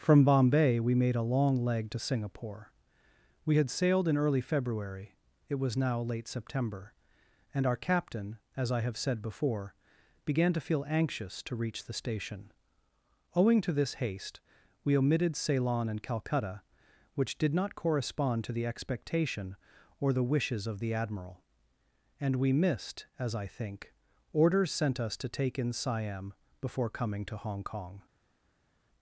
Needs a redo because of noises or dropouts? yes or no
no